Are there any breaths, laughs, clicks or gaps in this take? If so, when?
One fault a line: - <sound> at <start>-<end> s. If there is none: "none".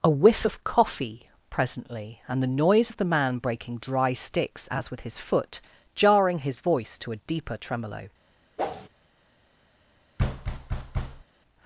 - whoosh at 8.6-8.9 s
- thud at 10.2-11.2 s